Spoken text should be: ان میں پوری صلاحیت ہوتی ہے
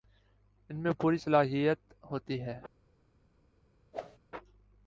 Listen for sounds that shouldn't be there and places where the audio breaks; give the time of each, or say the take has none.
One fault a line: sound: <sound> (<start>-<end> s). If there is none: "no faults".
sound: whoosh (3.9-4.2 s)